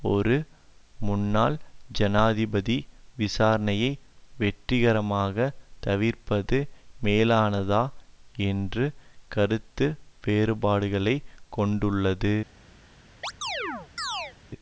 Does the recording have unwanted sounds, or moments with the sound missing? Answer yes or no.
yes